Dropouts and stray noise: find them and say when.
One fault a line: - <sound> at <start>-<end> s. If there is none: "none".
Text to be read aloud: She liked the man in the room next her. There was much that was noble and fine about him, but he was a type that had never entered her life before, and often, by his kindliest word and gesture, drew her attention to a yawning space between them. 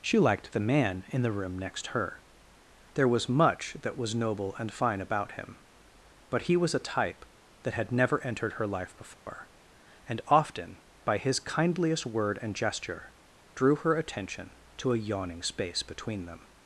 - dropout at 9.1-9.3 s